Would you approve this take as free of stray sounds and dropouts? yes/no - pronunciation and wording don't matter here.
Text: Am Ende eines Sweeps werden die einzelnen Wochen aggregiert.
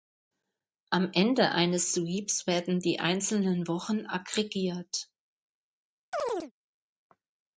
no